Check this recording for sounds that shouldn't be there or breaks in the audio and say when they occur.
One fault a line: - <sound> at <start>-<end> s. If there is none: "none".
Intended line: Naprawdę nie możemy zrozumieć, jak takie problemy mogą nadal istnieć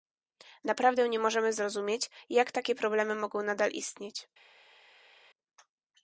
none